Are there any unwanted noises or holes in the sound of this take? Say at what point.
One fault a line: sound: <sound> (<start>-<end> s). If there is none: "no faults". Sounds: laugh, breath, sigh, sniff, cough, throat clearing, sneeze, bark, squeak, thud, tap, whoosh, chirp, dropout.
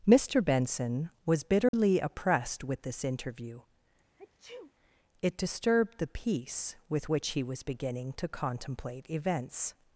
sound: dropout (1.7-1.7 s)
sound: sneeze (4.2-4.7 s)